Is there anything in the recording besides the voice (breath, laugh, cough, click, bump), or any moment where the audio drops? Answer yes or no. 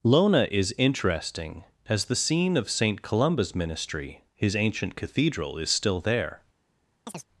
yes